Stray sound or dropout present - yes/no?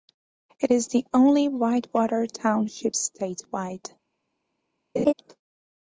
yes